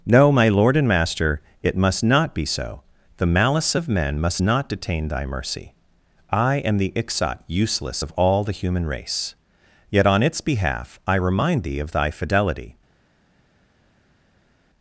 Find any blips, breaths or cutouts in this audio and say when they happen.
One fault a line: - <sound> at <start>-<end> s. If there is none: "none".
none